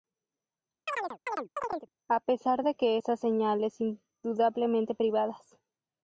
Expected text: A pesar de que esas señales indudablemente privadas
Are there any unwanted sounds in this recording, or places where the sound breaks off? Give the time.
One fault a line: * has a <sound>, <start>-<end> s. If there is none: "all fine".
* has a chirp, 0.9-1.9 s